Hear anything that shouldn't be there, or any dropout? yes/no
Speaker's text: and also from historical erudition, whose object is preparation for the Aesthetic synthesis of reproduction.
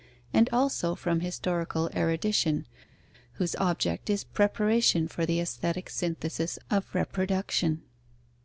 no